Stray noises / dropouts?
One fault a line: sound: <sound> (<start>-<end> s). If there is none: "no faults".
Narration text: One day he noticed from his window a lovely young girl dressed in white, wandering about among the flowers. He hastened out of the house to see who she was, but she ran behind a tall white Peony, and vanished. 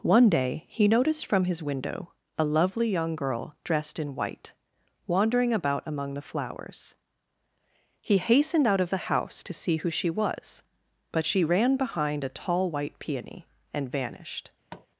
sound: tap (14.7-14.9 s)